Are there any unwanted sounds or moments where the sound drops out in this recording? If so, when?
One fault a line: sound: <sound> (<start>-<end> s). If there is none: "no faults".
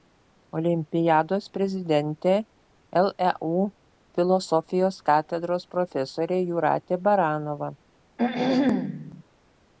sound: throat clearing (8.2-9.2 s)